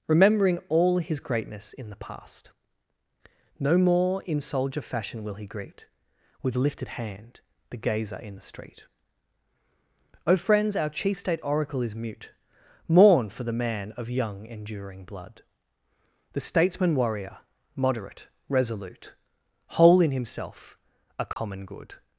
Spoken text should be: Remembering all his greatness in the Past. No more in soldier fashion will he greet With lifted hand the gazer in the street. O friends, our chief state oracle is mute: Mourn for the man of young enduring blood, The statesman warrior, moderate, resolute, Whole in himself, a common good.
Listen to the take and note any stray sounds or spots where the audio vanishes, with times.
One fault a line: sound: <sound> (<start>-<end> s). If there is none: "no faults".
sound: dropout (21.3-21.4 s)